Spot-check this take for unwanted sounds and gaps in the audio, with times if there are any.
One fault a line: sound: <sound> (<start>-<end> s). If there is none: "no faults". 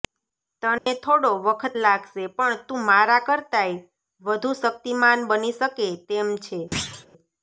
sound: dropout (0.8-0.9 s)
sound: thud (6.7-7.1 s)